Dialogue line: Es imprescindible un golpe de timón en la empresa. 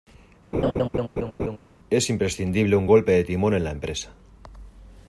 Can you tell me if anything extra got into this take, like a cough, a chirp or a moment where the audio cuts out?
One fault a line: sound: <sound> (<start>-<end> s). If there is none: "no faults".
sound: laugh (0.5-1.6 s)